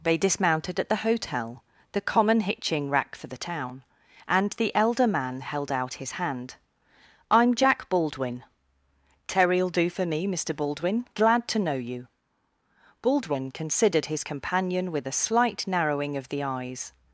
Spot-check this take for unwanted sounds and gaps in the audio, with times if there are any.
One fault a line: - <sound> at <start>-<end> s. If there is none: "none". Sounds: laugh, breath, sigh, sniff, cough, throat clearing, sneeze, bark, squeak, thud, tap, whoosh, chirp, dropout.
none